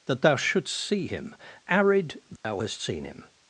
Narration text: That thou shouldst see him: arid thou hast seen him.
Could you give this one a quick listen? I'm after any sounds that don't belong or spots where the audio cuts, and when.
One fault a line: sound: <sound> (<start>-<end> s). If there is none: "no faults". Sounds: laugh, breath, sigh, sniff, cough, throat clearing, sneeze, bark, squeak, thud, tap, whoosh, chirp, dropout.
sound: dropout (2.4-2.4 s)